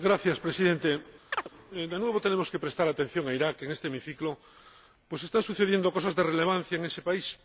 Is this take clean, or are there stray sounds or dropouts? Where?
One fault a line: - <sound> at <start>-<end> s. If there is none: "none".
- chirp at 1.3-1.5 s